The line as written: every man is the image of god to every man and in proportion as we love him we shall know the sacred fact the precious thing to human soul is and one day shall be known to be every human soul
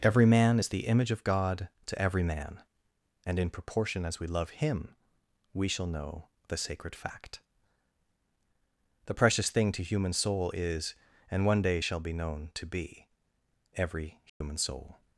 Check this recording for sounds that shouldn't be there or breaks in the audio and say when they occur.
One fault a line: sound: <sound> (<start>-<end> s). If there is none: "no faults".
sound: dropout (14.3-14.4 s)